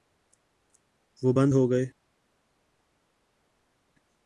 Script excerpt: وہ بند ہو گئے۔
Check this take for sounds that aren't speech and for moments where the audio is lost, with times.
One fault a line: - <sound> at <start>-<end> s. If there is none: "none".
none